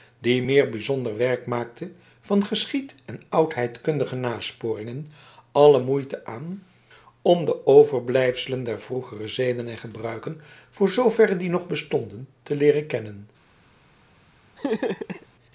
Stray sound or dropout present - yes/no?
yes